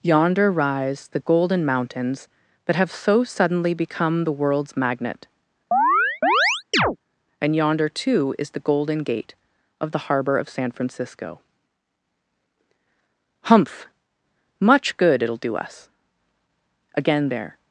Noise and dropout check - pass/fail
fail